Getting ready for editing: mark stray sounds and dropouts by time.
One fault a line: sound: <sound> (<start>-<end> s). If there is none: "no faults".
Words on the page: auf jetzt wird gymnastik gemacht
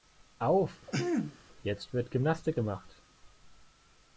sound: throat clearing (0.9-1.4 s)